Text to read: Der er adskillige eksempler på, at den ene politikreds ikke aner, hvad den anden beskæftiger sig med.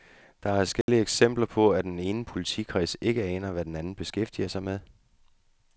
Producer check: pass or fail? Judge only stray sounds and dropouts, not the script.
fail